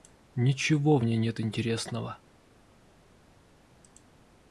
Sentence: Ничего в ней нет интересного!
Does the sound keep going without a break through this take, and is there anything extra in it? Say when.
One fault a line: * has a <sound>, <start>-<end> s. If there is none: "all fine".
all fine